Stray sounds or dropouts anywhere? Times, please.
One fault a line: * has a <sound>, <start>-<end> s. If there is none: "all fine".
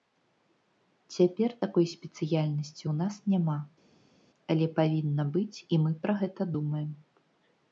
all fine